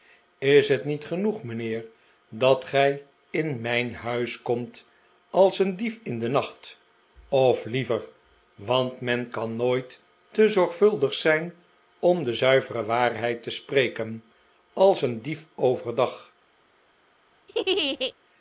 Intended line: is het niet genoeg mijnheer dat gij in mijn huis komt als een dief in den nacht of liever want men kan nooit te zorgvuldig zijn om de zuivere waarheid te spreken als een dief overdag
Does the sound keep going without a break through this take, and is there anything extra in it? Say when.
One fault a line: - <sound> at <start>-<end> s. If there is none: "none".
- laugh at 17.5-18.1 s